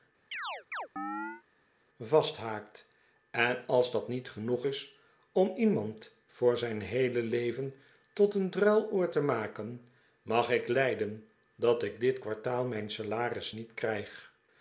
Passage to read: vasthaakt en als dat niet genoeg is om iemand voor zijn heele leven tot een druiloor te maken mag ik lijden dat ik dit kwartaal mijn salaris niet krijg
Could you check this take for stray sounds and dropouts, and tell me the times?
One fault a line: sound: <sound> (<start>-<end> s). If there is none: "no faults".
sound: chirp (0.3-1.4 s)